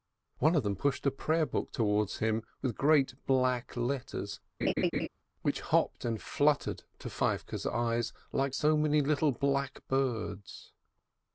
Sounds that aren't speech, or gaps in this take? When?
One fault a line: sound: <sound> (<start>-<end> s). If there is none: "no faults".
sound: laugh (4.6-5.1 s)